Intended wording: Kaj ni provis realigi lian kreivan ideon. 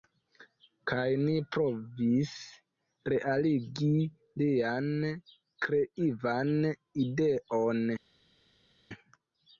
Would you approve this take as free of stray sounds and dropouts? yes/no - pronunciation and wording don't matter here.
yes